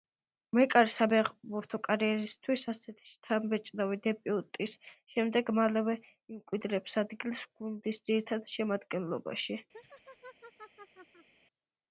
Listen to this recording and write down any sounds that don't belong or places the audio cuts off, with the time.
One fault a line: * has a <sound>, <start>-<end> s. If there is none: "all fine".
* has a laugh, 9.7-11.3 s